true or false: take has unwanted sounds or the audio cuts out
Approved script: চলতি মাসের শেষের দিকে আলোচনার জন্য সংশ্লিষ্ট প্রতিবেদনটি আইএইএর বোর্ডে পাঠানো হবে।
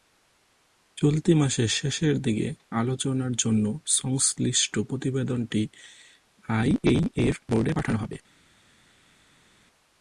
false